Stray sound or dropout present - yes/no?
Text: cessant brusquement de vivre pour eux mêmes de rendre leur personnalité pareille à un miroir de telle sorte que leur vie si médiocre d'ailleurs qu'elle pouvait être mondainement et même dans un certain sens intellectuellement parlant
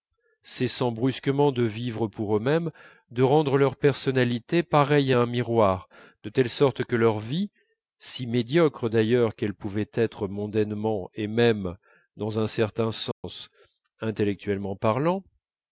yes